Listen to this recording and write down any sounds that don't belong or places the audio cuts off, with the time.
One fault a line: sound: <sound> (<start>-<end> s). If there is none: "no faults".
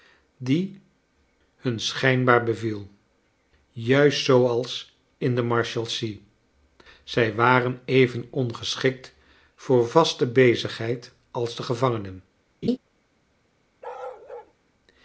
sound: laugh (12.6-12.8 s)
sound: bark (13.8-14.5 s)